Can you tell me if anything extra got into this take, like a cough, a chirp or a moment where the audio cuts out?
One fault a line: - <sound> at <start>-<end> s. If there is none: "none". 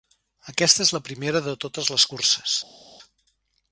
none